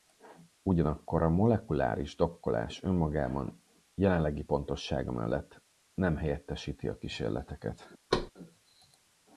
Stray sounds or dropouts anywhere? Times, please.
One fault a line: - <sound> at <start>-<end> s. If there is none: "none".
- thud at 8.1-8.3 s